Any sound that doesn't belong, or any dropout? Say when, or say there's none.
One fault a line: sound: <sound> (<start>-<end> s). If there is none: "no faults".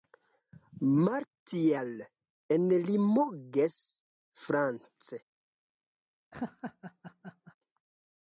sound: laugh (6.3-7.6 s)